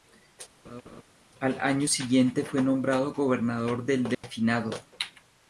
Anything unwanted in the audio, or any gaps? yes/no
yes